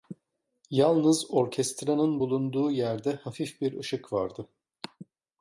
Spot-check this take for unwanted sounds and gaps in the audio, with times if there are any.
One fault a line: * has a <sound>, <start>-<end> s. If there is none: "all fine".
all fine